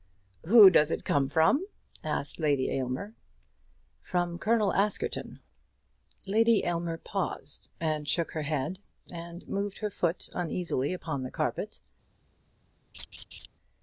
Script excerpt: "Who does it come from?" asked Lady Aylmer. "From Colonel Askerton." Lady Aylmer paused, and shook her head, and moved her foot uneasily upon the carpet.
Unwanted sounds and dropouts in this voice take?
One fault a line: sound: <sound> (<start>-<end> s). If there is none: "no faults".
sound: laugh (12.9-13.5 s)